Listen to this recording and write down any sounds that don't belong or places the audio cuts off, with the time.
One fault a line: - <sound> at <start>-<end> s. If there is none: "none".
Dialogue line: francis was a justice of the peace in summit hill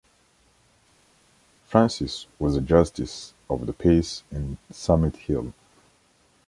none